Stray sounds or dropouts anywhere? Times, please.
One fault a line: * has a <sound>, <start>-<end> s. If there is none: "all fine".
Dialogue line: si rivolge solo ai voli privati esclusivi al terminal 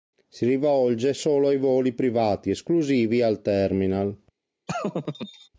* has a laugh, 4.7-5.5 s